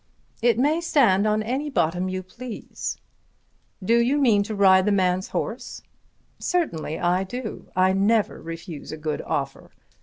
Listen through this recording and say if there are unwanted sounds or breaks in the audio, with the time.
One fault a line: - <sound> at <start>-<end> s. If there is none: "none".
none